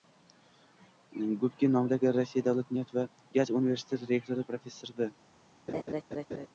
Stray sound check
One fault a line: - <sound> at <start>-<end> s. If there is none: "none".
- laugh at 5.7-6.5 s